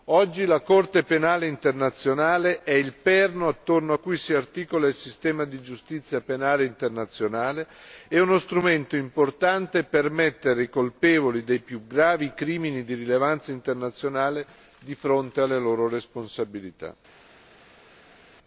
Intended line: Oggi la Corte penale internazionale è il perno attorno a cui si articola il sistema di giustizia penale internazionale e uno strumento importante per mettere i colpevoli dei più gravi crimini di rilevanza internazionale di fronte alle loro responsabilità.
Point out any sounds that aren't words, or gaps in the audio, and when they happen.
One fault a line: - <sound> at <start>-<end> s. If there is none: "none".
none